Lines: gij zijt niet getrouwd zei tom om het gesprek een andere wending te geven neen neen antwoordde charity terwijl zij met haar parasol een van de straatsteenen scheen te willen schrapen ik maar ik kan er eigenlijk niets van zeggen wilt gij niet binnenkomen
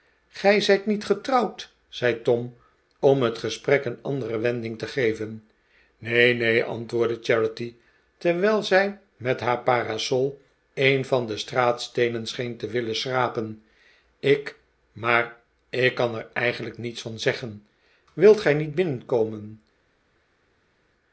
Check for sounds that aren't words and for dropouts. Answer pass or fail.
pass